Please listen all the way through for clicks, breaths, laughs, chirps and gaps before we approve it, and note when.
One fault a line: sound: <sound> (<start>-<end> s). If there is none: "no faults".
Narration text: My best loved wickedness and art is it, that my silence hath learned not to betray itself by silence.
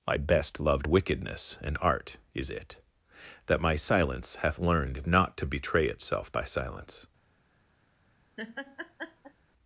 sound: laugh (8.4-9.3 s)